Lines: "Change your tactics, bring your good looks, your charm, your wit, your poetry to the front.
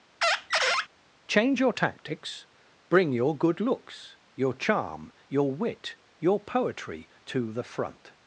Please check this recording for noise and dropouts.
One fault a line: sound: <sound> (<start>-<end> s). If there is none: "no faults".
sound: squeak (0.2-0.9 s)